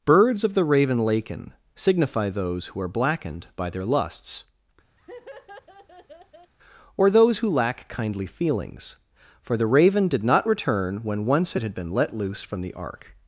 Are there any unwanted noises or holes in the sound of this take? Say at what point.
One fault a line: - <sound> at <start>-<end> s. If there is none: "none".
- laugh at 5.0-6.5 s